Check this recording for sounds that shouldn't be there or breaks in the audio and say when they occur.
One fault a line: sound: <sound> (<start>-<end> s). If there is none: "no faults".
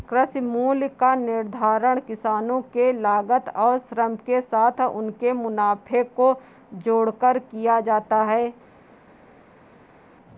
no faults